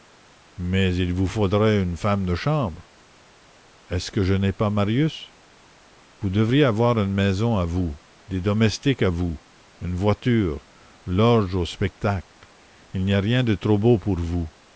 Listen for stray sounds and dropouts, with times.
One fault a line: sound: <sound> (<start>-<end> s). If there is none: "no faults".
no faults